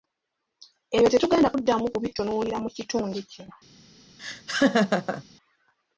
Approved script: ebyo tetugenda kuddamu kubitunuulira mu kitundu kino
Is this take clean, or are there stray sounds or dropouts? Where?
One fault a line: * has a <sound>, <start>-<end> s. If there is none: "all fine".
* has a laugh, 4.2-5.2 s